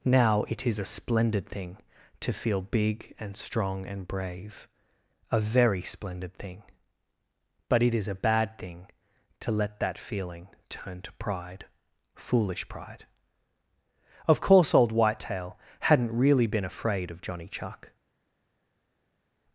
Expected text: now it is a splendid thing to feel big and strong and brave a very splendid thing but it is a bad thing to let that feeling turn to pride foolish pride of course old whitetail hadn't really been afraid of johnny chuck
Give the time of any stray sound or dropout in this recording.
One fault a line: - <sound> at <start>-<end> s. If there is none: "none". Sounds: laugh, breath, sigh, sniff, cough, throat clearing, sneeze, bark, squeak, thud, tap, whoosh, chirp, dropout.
none